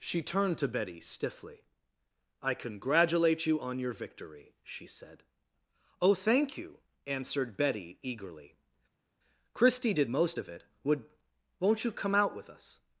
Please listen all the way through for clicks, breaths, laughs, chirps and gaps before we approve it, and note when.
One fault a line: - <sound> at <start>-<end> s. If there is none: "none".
none